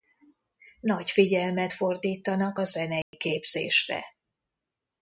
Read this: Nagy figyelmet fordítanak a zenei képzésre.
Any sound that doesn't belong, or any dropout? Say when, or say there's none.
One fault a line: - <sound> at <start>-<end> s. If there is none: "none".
- dropout at 3.0-3.1 s